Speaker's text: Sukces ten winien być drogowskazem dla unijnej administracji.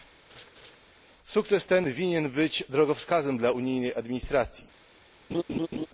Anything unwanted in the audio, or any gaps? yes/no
yes